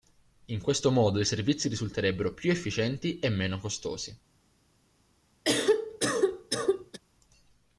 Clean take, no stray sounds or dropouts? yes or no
no